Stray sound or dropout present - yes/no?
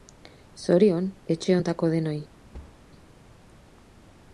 yes